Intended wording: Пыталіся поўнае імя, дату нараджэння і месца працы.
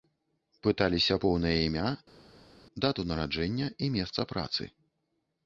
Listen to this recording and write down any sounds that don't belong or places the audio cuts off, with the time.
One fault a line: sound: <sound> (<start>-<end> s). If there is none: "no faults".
no faults